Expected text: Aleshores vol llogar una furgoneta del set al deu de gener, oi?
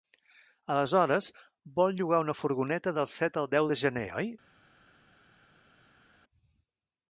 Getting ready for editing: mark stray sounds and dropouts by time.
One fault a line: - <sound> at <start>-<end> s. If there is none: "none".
none